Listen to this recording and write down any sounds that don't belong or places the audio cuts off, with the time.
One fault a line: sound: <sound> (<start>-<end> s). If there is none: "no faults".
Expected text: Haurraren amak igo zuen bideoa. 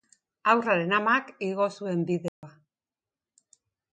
sound: dropout (2.3-2.4 s)